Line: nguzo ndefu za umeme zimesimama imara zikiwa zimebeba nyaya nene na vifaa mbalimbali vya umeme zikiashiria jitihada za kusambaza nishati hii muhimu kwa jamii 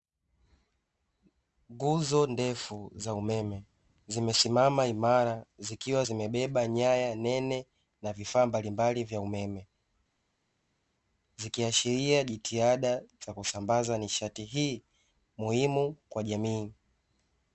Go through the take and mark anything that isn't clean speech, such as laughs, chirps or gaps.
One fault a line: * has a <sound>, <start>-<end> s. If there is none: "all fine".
all fine